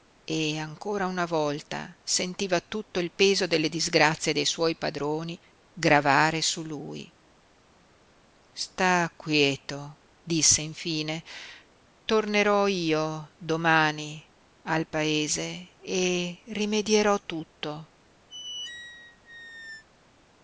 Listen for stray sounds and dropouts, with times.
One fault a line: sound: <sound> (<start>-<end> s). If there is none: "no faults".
sound: squeak (18.3-19.8 s)